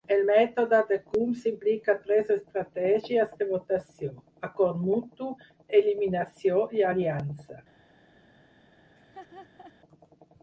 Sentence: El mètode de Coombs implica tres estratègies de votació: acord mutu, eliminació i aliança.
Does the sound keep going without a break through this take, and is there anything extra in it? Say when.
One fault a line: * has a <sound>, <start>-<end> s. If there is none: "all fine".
* has a laugh, 9.0-9.7 s